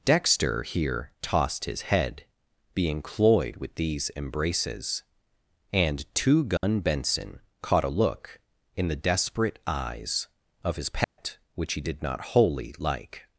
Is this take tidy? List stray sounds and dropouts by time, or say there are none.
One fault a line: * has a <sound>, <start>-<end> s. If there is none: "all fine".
* has a dropout, 6.6-6.6 s
* has a dropout, 11.0-11.2 s